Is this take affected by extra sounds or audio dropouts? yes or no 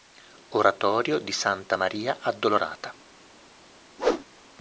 yes